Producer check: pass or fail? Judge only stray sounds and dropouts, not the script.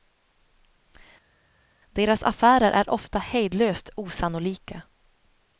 pass